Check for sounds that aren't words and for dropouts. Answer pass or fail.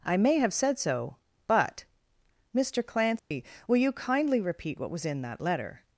fail